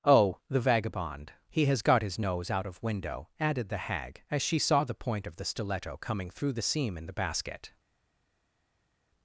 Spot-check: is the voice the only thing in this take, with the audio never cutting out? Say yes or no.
yes